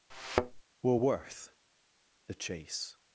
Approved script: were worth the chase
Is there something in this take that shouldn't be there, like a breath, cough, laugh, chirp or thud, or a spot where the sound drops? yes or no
yes